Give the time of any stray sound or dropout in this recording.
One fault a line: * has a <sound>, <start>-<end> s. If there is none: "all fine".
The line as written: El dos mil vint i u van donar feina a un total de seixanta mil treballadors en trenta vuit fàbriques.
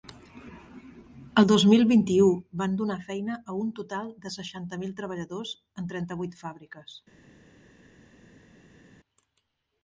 all fine